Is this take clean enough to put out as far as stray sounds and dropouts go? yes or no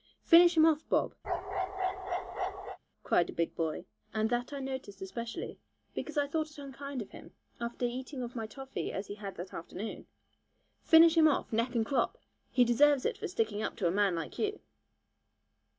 no